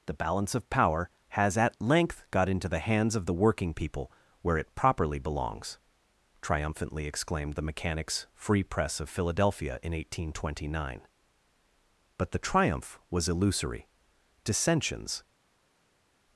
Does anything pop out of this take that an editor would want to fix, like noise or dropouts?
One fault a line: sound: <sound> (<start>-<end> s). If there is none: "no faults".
no faults